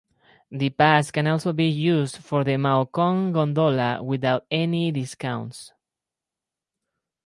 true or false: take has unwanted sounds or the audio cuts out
false